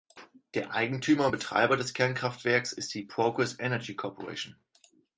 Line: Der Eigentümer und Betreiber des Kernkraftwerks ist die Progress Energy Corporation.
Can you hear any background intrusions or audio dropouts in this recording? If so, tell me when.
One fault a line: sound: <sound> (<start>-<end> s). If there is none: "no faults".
no faults